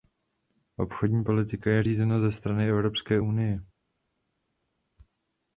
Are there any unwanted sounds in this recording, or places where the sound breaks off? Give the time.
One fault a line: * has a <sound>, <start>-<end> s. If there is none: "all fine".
all fine